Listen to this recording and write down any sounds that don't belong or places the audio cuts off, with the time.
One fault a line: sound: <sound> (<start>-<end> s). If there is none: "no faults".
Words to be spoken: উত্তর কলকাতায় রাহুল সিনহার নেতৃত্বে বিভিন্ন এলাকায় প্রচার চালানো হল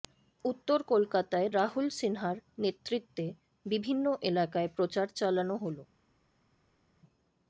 no faults